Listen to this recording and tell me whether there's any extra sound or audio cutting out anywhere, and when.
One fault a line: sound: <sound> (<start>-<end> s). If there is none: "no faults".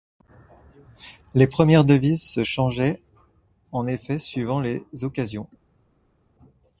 no faults